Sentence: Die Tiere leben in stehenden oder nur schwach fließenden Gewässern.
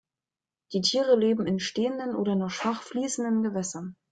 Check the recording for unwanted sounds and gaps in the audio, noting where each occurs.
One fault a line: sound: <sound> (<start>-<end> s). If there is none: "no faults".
no faults